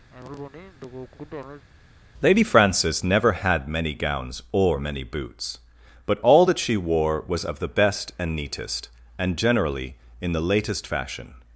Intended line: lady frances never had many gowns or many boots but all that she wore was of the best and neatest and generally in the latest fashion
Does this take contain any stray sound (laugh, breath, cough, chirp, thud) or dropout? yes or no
yes